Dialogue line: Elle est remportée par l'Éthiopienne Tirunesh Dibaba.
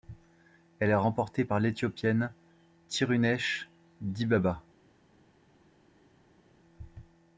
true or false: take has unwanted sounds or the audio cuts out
false